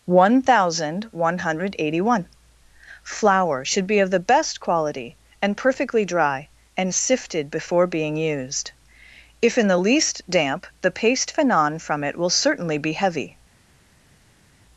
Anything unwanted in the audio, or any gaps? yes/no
no